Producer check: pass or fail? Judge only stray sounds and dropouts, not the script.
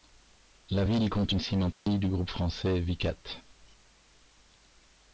fail